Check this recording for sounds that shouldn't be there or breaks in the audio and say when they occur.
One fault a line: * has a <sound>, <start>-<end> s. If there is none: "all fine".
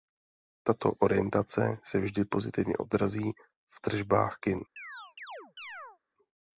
* has a chirp, 4.8-6.0 s